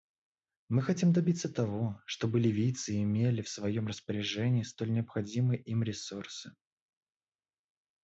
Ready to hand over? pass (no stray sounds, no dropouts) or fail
pass